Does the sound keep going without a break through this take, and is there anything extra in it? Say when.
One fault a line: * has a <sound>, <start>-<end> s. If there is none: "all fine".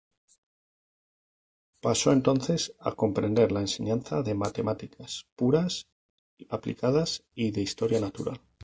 all fine